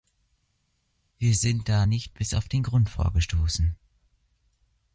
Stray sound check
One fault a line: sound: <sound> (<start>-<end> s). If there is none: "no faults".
no faults